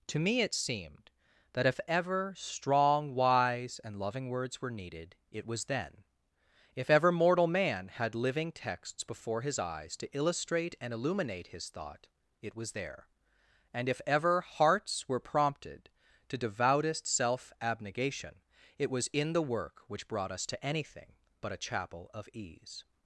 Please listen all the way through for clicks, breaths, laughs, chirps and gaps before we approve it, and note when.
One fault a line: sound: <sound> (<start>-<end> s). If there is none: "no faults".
no faults